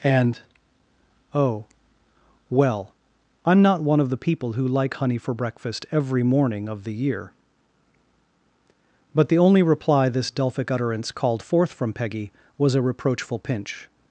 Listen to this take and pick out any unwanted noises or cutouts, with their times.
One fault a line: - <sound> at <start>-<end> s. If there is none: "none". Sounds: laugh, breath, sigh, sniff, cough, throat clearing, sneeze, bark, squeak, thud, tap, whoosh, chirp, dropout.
none